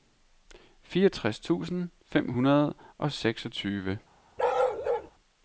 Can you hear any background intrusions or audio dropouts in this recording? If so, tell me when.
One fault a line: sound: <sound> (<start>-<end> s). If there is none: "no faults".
sound: bark (4.4-5.1 s)